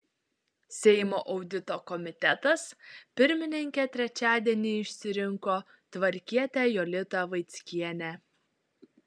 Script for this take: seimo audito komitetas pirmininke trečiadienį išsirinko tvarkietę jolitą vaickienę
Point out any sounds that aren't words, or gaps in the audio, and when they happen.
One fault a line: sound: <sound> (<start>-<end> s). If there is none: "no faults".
no faults